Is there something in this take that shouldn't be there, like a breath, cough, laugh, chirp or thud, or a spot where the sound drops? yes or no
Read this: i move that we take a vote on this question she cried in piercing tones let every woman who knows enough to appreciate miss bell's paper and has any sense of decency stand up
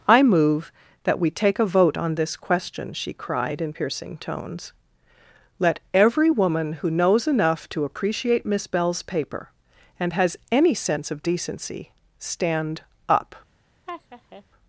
yes